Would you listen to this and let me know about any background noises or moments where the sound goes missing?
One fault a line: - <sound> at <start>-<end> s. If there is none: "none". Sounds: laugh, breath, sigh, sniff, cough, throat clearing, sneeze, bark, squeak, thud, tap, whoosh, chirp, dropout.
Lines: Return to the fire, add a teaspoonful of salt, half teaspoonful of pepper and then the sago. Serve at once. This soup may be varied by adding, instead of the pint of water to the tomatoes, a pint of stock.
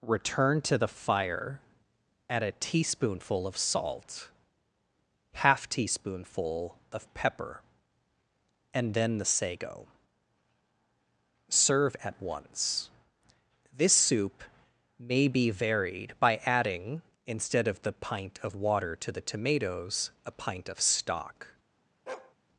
- bark at 22.1-22.3 s